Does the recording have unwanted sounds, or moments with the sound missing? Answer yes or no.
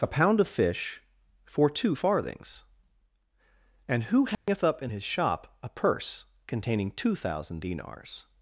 yes